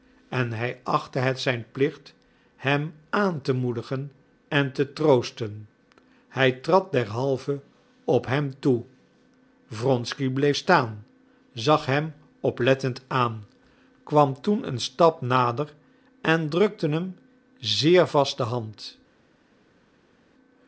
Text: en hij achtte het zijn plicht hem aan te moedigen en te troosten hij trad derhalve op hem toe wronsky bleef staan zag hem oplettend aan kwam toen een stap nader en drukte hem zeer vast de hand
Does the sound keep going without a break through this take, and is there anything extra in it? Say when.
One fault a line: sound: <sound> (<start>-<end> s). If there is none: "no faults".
no faults